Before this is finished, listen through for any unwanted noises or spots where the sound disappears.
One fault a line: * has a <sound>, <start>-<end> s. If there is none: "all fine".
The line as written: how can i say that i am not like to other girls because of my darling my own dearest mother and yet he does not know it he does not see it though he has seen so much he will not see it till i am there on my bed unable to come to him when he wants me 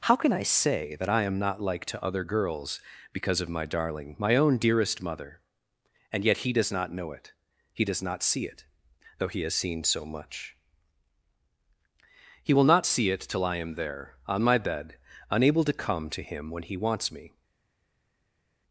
all fine